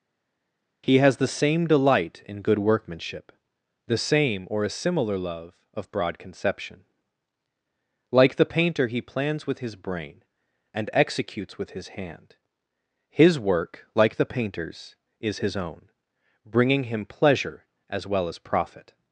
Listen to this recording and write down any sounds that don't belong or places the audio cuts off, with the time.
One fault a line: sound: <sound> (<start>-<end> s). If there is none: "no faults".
no faults